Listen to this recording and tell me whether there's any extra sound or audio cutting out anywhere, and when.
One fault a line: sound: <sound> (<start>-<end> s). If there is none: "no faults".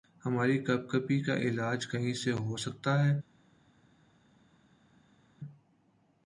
no faults